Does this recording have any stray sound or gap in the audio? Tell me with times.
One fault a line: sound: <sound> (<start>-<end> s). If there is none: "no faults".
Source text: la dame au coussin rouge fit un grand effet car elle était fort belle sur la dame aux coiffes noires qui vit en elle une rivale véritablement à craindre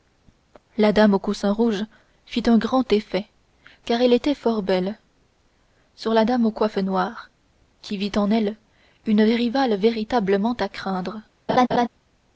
sound: laugh (11.5-11.9 s)